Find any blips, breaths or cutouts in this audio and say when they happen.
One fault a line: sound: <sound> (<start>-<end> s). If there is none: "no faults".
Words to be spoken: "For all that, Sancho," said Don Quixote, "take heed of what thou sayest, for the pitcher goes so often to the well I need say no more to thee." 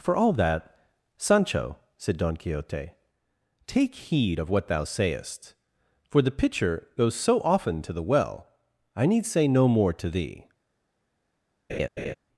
sound: laugh (11.7-12.1 s)